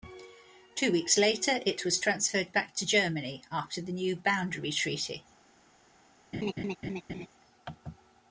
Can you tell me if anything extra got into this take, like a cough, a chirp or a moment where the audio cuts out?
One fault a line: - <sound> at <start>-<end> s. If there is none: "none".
- laugh at 6.3-7.3 s